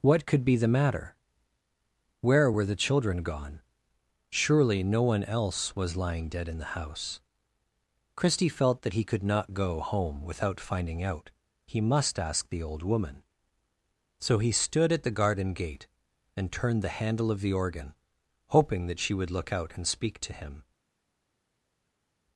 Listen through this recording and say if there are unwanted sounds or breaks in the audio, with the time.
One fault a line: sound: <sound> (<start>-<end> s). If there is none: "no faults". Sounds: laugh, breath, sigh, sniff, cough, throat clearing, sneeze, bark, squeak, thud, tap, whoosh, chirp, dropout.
no faults